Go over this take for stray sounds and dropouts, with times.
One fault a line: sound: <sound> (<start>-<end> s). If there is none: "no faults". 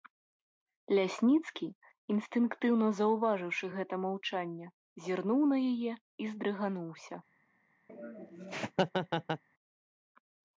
sound: laugh (7.9-9.4 s)